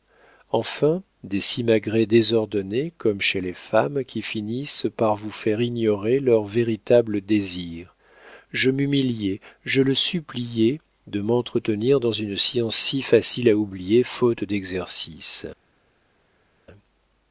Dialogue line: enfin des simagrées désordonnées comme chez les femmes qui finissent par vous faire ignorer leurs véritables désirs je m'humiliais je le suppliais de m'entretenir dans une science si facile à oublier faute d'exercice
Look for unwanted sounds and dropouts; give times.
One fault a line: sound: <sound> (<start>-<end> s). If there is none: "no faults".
no faults